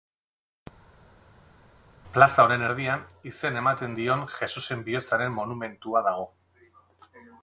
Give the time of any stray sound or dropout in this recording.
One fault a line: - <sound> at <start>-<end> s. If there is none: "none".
none